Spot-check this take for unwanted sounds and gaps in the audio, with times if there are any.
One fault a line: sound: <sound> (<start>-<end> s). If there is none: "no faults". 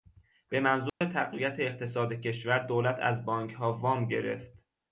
sound: dropout (0.9-1.0 s)